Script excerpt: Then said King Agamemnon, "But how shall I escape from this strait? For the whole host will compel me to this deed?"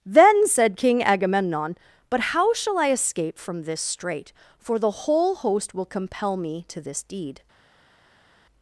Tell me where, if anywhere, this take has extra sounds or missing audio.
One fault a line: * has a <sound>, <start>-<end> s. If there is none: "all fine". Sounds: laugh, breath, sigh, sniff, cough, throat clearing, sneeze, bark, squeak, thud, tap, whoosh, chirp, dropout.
all fine